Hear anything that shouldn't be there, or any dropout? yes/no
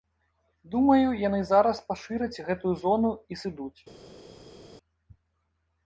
no